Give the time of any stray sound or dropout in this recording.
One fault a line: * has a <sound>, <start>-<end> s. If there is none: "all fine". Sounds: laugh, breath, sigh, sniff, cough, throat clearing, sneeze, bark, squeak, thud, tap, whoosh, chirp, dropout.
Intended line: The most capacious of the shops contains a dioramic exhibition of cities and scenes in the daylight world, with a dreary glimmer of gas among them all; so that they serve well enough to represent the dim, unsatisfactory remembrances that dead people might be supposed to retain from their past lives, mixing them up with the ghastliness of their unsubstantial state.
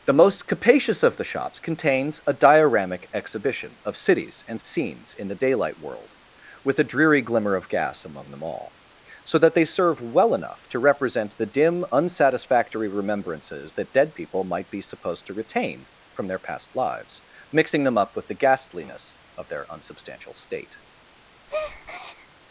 * has a breath, 21.5-22.3 s